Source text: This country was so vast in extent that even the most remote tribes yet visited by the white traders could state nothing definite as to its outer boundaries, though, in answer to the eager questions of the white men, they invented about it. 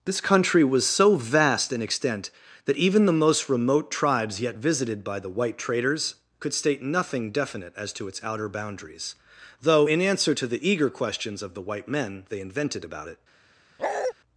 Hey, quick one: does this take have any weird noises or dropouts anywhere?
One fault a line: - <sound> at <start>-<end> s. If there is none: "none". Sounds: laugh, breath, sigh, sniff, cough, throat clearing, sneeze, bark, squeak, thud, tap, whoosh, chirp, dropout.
- bark at 13.8-14.1 s